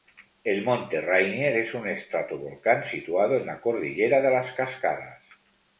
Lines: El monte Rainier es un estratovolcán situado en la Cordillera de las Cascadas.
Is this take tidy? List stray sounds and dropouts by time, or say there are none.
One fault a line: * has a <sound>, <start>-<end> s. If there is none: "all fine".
all fine